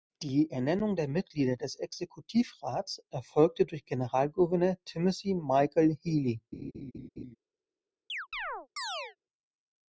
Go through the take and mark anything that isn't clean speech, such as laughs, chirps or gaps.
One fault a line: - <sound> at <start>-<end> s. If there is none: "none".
- laugh at 6.5-7.4 s
- chirp at 8.1-9.2 s